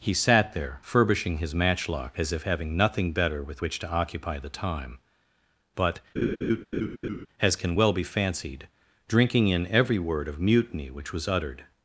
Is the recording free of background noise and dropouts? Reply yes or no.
no